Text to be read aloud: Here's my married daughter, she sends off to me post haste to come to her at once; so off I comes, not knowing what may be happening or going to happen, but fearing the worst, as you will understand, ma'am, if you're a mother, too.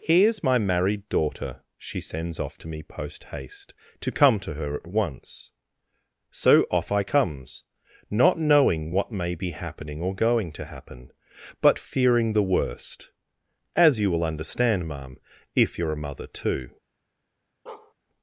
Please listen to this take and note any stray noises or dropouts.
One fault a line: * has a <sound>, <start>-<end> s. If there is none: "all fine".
* has a bark, 17.7-17.9 s